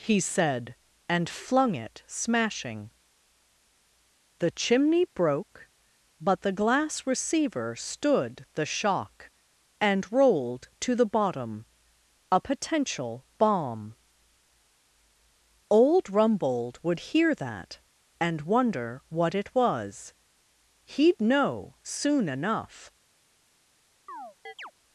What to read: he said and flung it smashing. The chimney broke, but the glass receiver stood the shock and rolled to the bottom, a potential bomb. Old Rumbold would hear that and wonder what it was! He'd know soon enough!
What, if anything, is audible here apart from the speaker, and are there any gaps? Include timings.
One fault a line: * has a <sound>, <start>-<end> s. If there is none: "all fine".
* has a chirp, 24.1-24.7 s